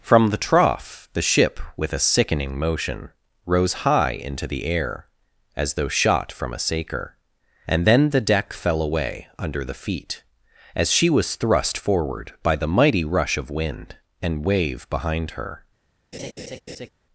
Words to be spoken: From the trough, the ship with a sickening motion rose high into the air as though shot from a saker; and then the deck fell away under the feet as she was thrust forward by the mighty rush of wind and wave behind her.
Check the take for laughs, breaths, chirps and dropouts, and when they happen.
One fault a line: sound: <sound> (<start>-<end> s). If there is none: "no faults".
sound: laugh (16.1-16.9 s)